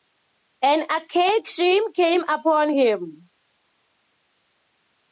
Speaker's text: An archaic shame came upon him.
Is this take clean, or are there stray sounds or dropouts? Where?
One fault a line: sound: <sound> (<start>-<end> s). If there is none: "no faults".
no faults